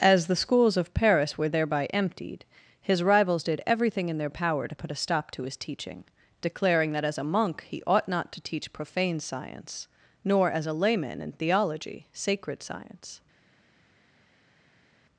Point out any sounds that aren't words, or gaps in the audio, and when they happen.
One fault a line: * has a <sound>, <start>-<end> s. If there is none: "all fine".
all fine